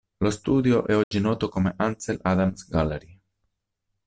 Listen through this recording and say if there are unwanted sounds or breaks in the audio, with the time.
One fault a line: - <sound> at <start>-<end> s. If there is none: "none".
- dropout at 1.0-1.1 s